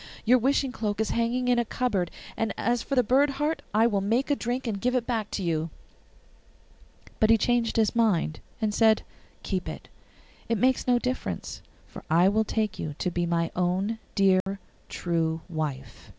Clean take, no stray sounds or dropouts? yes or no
no